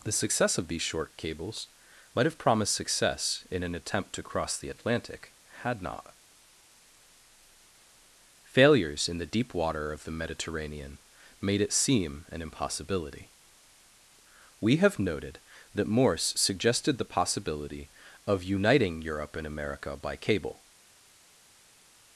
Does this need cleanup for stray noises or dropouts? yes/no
no